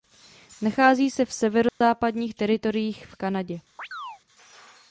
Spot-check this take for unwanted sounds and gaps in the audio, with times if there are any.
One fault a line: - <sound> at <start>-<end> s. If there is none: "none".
- dropout at 1.7-1.8 s
- chirp at 3.8-4.2 s